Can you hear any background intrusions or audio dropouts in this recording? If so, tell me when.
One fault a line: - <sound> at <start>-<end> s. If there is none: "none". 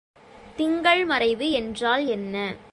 none